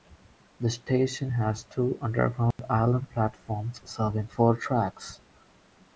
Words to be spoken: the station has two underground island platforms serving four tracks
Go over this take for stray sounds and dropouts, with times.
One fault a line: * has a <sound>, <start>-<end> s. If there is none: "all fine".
* has a dropout, 2.5-2.6 s